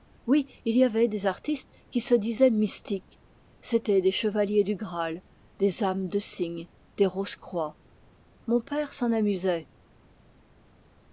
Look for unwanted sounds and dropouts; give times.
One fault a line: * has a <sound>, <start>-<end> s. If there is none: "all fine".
all fine